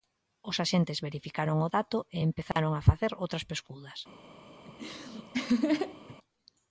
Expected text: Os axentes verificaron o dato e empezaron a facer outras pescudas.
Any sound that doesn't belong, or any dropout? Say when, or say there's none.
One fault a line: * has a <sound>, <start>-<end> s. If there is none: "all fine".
* has a dropout, 2.5-2.6 s
* has a laugh, 4.7-6.2 s